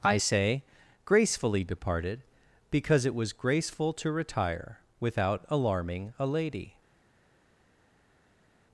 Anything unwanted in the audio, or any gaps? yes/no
no